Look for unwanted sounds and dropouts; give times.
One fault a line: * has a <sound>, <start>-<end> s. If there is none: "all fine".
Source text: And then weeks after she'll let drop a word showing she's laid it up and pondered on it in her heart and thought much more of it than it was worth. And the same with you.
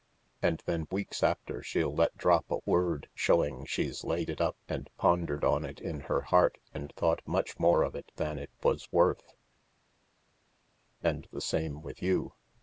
all fine